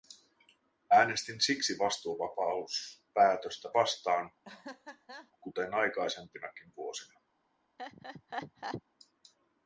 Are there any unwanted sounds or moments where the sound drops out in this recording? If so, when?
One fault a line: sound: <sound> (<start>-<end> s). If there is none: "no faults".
sound: laugh (4.4-5.3 s)
sound: laugh (7.8-8.8 s)